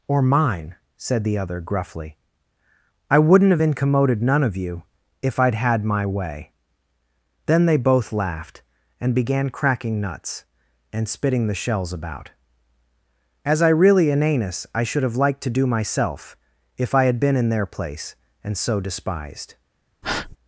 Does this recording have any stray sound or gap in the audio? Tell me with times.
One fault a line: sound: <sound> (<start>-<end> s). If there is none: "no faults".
sound: breath (20.0-20.4 s)